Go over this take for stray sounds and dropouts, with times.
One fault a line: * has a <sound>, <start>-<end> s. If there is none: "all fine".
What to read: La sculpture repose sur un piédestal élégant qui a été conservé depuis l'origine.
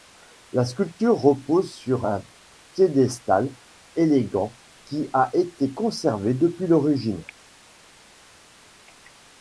all fine